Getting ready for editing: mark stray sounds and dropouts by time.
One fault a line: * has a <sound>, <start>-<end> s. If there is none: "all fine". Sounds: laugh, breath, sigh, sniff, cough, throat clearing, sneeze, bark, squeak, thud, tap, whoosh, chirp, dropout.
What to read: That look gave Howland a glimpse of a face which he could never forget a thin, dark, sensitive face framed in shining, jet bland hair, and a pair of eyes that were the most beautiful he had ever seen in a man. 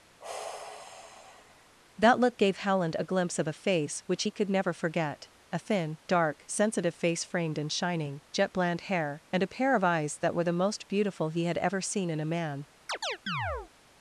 * has a sigh, 0.2-1.7 s
* has a chirp, 12.9-13.7 s